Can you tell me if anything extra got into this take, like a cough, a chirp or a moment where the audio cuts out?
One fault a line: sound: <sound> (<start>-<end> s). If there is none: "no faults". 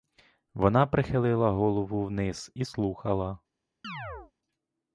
sound: chirp (3.8-4.3 s)